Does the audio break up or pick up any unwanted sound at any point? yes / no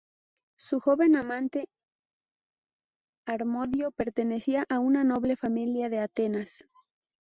no